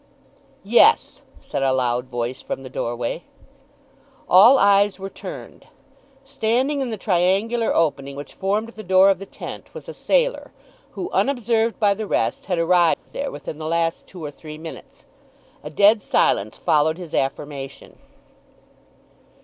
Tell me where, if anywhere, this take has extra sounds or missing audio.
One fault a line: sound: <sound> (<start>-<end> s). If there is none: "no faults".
sound: dropout (12.9-13.1 s)